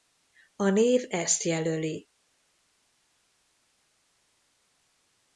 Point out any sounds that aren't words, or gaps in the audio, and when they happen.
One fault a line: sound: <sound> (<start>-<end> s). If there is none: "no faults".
no faults